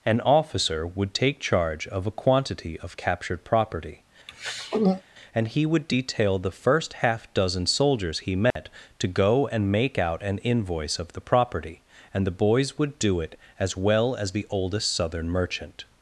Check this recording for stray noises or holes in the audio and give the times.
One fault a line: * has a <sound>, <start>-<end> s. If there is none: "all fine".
* has a throat clearing, 4.3-5.0 s
* has a dropout, 8.5-8.6 s